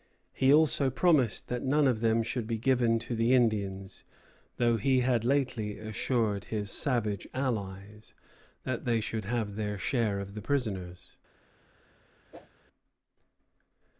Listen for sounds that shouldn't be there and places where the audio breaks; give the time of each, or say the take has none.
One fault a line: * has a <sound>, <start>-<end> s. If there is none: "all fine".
* has a whoosh, 12.3-12.5 s